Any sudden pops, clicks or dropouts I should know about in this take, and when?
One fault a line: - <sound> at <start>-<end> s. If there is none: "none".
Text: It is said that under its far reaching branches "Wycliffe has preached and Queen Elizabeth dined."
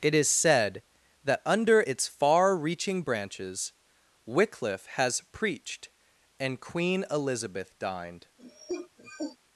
- cough at 8.4-9.4 s